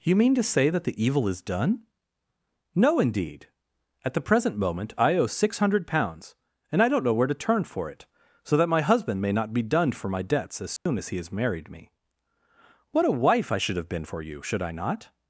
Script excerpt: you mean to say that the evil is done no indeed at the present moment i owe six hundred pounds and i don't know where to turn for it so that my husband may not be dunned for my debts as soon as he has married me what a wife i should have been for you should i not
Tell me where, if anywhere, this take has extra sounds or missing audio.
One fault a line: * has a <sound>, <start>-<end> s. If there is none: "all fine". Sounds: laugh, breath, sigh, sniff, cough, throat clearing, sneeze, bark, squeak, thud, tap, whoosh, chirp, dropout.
* has a dropout, 10.8-10.9 s